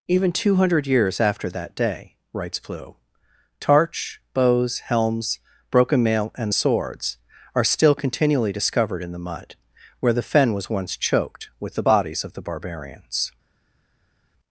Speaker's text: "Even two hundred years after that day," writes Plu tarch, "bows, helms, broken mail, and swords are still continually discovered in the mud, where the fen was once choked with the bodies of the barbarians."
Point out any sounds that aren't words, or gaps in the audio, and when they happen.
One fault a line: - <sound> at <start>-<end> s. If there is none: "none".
none